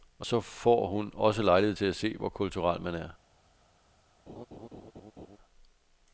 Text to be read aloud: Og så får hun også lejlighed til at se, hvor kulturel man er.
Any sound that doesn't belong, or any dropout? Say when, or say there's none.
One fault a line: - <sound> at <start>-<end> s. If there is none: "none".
- laugh at 4.3-5.4 s